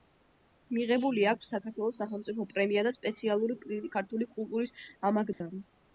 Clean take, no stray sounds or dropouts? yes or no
no